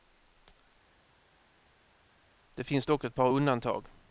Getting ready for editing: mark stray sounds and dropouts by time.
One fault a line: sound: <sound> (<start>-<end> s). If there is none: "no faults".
no faults